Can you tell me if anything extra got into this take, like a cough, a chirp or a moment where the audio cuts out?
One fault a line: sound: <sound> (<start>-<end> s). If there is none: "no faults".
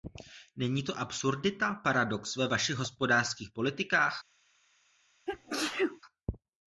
sound: sneeze (5.3-6.0 s)